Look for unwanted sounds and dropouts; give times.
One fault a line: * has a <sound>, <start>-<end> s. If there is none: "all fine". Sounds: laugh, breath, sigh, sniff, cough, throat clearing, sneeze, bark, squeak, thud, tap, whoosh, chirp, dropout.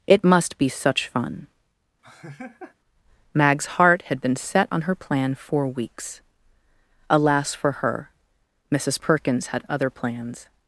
* has a laugh, 2.0-2.7 s